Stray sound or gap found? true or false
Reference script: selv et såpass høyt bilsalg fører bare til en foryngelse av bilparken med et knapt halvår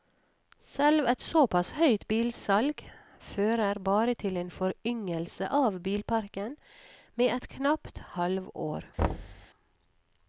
true